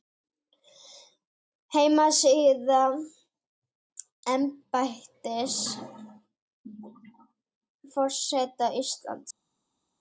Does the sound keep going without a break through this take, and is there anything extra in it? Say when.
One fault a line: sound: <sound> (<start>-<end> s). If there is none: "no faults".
no faults